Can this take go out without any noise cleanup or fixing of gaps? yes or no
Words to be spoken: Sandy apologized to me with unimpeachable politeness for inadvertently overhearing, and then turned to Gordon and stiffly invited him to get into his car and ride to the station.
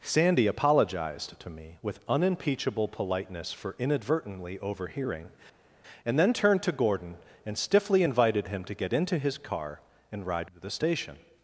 yes